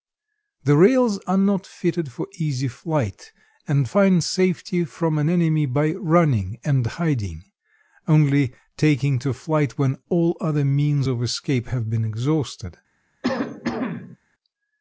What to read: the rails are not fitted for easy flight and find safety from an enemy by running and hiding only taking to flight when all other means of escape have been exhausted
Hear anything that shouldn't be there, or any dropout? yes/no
yes